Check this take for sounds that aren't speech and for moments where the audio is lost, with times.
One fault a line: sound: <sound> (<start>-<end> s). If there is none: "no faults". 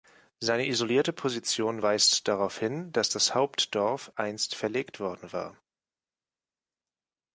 no faults